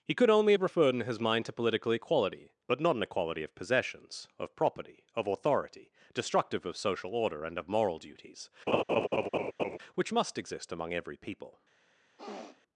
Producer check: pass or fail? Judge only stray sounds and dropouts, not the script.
fail